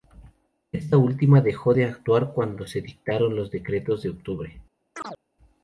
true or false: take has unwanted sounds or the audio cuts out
true